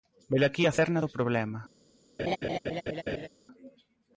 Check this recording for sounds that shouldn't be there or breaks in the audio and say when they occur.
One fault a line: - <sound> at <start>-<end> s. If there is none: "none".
- laugh at 2.2-3.3 s